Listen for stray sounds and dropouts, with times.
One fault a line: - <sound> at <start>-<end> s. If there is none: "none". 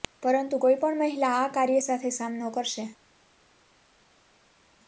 none